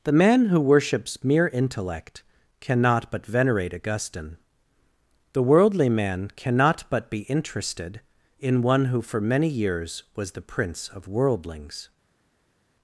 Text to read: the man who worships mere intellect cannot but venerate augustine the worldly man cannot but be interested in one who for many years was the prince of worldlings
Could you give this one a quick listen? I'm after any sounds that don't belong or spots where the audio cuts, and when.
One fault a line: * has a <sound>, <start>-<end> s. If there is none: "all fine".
all fine